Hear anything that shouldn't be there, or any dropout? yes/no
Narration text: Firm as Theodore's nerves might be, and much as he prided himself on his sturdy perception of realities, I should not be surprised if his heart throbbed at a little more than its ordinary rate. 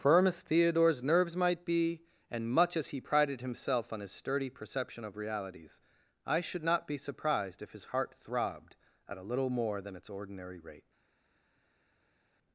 no